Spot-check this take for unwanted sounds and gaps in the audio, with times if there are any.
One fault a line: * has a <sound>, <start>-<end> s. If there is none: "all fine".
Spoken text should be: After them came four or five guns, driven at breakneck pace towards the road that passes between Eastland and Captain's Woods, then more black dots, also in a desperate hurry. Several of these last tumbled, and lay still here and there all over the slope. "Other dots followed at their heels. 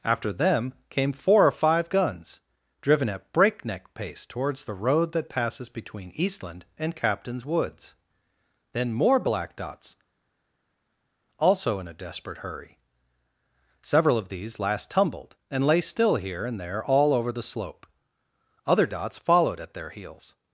all fine